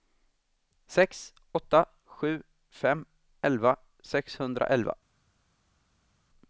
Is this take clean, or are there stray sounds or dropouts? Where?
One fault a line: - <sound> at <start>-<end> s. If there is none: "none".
none